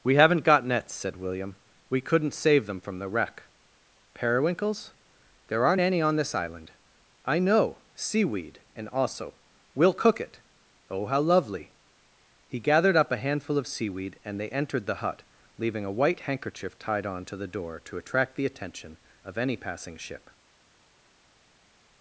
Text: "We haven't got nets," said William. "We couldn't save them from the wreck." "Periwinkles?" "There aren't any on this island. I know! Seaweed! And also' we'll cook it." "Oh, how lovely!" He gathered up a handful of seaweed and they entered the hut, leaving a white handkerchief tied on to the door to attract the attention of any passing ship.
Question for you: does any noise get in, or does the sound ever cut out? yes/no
no